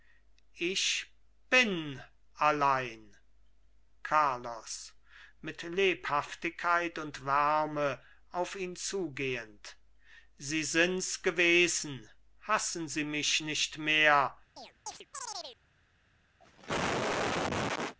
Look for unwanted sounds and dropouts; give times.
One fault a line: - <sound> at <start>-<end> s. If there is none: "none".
- chirp at 14.6-15.6 s
- cough at 16.4-18.0 s